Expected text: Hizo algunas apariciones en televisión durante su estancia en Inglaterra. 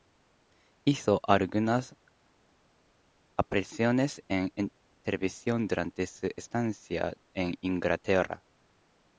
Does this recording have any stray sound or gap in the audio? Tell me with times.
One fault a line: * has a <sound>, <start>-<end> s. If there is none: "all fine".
all fine